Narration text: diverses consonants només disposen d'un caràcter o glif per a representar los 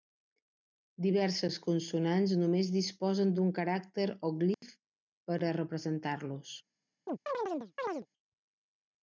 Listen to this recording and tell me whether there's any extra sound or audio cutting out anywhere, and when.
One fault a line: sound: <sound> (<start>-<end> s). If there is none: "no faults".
sound: dropout (4.5-4.6 s)
sound: chirp (7.1-8.1 s)